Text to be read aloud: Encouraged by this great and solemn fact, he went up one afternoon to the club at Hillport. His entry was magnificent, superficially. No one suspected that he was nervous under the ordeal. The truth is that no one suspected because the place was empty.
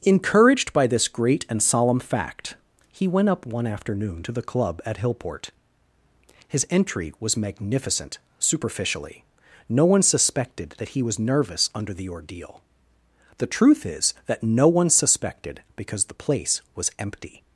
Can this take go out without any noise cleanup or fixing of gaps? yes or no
yes